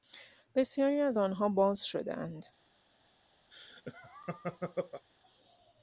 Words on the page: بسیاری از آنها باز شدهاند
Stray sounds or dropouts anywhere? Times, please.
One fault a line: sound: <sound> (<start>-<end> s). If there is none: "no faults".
sound: laugh (3.5-5.1 s)